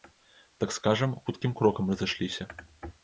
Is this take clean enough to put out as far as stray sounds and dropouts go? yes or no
yes